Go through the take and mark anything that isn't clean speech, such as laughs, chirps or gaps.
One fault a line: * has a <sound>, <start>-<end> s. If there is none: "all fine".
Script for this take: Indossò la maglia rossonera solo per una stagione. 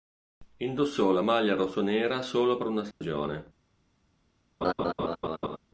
* has a dropout, 2.9-3.0 s
* has a laugh, 4.6-5.6 s